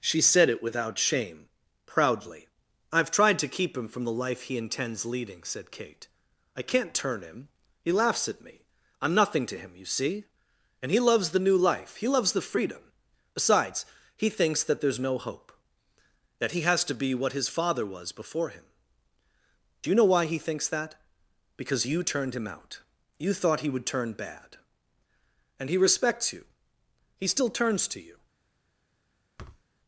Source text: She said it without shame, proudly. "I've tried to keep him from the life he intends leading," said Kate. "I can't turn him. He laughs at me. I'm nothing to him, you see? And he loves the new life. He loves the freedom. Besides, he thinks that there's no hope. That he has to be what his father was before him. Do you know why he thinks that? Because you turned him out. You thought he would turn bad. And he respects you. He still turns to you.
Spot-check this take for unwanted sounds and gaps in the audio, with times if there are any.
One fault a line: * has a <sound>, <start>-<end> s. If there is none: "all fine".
* has a thud, 29.4-29.6 s